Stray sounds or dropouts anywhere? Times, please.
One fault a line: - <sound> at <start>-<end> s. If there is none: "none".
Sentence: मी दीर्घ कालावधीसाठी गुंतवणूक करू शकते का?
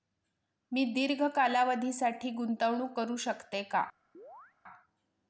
- chirp at 4.1-4.5 s